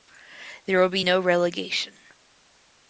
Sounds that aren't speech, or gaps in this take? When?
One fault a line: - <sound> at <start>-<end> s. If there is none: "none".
none